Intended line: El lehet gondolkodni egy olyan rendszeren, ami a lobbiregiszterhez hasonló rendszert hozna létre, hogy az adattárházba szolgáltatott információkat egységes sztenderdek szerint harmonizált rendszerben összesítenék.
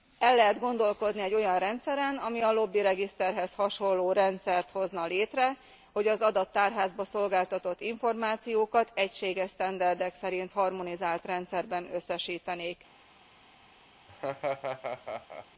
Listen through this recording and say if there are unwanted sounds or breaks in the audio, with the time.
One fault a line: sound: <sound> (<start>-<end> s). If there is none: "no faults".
sound: laugh (14.1-15.5 s)